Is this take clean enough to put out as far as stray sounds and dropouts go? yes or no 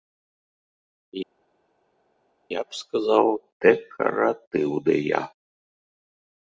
yes